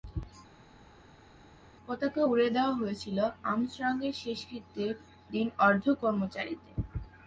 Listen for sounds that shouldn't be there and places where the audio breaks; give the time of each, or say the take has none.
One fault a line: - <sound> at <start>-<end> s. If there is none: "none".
none